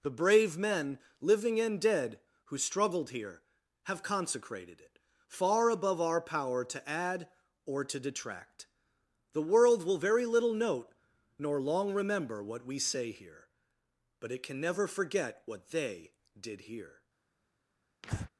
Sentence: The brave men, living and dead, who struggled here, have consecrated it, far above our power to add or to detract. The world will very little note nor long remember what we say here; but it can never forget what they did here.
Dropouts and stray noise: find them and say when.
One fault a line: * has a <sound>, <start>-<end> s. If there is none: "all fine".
* has a breath, 18.0-18.3 s